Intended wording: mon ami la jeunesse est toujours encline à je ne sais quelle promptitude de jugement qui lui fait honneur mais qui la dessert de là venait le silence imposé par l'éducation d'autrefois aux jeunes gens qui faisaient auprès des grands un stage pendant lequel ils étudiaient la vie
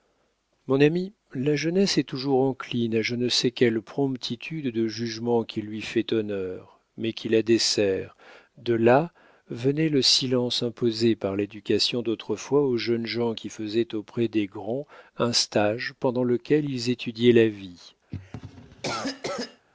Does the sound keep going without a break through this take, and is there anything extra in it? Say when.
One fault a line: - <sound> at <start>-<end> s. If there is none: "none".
- cough at 18.1-19.7 s